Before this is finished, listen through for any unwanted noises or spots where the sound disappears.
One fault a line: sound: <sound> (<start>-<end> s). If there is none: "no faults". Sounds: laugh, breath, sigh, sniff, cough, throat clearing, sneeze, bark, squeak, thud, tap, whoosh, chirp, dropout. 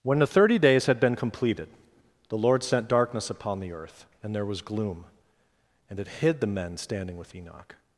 no faults